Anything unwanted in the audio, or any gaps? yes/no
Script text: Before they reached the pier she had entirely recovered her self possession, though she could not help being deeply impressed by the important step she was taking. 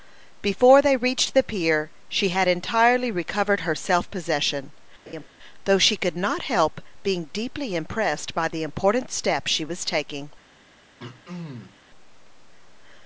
yes